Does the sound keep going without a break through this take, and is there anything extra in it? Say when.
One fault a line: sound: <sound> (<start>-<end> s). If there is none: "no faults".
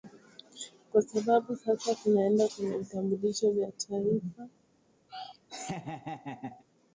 sound: laugh (5.1-6.6 s)